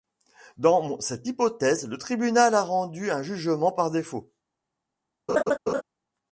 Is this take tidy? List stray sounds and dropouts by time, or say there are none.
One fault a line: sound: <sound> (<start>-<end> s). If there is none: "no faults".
sound: laugh (5.3-5.8 s)